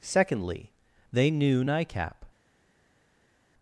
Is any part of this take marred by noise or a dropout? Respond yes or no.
no